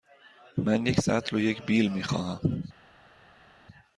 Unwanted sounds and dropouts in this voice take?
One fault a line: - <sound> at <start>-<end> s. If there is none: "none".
none